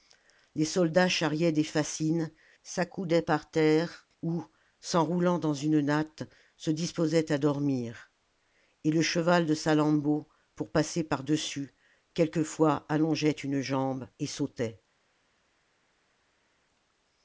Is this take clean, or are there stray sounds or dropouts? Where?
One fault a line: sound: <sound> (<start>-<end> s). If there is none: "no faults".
no faults